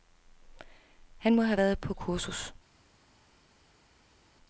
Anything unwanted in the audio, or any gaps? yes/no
no